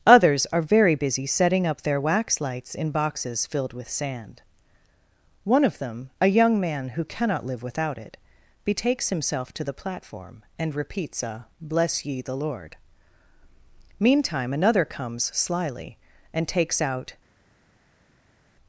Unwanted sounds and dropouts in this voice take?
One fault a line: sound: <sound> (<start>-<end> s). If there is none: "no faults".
no faults